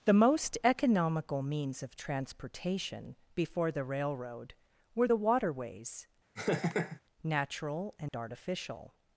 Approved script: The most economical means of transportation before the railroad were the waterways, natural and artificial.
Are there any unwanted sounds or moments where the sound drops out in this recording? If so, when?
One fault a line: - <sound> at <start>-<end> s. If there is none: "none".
- laugh at 6.4-7.0 s
- dropout at 8.1-8.1 s